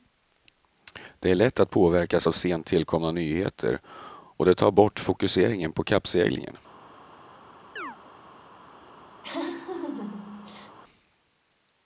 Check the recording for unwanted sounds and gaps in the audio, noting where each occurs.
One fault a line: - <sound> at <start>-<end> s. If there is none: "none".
- chirp at 7.8-8.0 s
- laugh at 9.2-10.8 s